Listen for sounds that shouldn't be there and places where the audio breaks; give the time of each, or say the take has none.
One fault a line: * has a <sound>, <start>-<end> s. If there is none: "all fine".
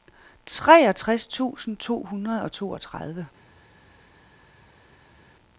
all fine